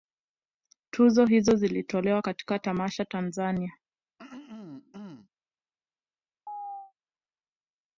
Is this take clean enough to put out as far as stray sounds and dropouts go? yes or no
no